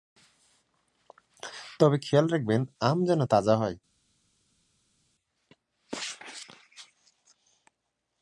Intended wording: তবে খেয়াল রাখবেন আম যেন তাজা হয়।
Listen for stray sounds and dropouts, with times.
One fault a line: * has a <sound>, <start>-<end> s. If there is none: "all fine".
all fine